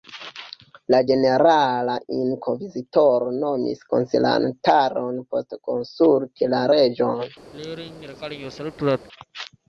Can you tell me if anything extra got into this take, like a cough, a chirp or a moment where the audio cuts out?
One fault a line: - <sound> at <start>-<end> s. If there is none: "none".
- throat clearing at 7.5-9.1 s